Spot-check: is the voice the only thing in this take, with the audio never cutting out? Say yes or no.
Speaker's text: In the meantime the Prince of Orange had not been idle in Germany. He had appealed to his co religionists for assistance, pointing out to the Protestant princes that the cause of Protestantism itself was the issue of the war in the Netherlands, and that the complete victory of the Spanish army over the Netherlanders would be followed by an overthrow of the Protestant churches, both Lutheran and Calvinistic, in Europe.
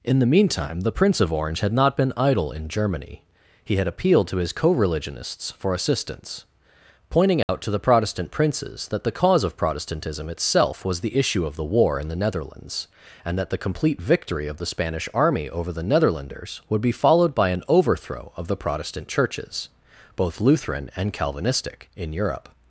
no